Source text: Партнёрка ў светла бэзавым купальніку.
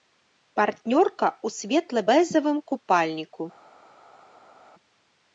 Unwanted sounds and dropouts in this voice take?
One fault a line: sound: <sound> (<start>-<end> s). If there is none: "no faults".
no faults